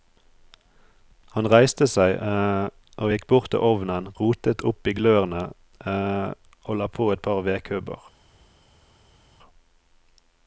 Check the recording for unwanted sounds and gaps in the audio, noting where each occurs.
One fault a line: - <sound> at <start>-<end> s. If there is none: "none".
none